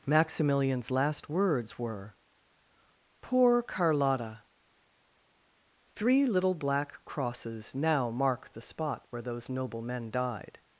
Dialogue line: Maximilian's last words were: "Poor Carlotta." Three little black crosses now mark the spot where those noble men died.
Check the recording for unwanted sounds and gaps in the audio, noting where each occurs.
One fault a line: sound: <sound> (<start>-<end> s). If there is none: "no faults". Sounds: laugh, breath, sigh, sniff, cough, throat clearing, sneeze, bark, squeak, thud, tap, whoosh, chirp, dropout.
no faults